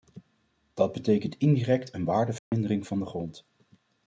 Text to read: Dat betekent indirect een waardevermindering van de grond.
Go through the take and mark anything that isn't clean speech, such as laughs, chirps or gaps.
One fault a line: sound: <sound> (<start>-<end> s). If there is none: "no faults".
sound: dropout (2.4-2.5 s)